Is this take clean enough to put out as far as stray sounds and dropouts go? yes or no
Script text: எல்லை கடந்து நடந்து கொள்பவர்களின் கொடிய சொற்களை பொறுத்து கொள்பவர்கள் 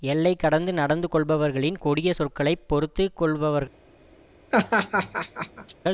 no